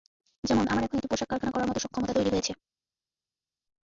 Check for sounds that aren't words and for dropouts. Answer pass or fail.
pass